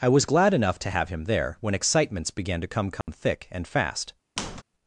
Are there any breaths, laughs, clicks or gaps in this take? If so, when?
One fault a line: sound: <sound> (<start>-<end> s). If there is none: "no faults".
sound: dropout (3.0-3.1 s)
sound: squeak (4.4-4.6 s)